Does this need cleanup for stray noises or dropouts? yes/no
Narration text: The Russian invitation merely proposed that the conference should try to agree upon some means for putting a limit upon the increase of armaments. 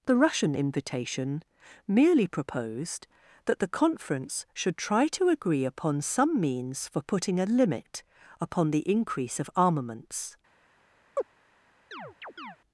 yes